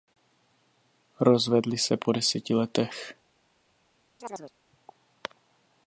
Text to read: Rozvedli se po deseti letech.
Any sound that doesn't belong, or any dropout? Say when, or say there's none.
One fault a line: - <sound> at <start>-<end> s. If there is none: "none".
- chirp at 4.2-4.5 s